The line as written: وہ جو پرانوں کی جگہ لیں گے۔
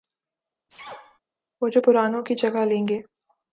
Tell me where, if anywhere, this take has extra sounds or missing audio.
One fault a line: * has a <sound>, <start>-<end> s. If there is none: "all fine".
* has a sneeze, 0.7-1.2 s